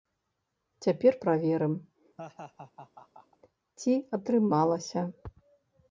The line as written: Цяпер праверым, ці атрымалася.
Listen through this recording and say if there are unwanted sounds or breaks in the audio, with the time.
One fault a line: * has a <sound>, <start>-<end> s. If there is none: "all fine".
* has a laugh, 2.2-3.4 s